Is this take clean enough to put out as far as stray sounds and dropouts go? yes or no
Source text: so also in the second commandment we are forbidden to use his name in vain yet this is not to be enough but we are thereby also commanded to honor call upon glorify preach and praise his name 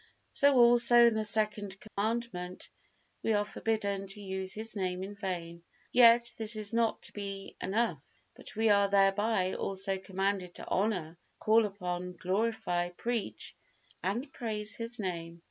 no